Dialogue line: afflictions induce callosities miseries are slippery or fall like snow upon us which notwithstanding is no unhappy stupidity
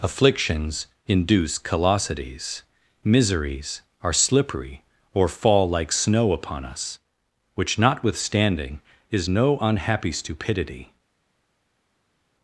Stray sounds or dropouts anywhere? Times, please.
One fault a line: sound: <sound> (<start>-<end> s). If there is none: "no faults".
no faults